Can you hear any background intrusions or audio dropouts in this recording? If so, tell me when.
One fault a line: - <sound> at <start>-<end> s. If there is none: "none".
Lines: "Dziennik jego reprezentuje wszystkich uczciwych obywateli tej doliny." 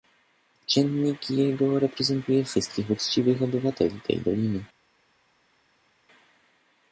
none